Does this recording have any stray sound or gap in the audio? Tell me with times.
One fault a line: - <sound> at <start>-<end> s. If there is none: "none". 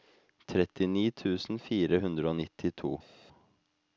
none